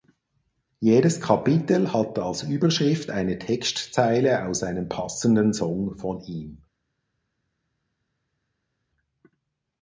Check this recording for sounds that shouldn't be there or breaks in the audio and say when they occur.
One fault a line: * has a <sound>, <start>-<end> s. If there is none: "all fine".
all fine